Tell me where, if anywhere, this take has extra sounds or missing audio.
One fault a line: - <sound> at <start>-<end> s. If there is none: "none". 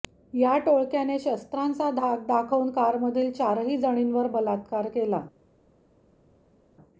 none